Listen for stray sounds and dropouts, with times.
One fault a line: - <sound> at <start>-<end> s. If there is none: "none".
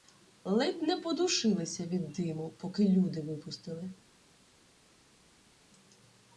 none